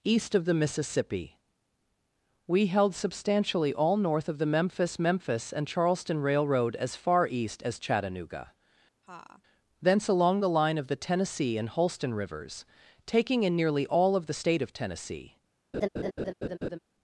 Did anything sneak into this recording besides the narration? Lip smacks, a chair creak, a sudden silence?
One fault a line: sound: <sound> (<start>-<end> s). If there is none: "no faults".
sound: laugh (9.0-9.4 s)
sound: laugh (15.7-16.8 s)